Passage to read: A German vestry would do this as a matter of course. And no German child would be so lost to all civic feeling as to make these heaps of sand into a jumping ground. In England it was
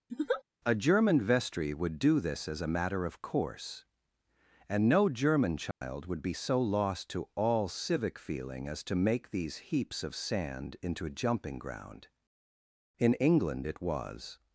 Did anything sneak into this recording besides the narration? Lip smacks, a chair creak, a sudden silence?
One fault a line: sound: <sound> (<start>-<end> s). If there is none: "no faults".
sound: laugh (0.1-0.4 s)
sound: dropout (5.7-5.8 s)